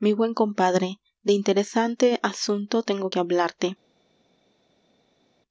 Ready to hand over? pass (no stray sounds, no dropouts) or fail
pass